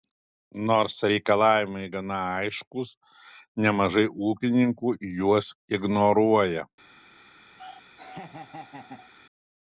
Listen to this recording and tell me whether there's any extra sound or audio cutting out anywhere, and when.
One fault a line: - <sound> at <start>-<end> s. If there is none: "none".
- laugh at 7.6-9.1 s